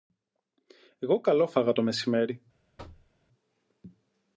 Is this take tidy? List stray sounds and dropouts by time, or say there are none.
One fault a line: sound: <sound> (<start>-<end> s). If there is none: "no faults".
sound: thud (2.8-3.1 s)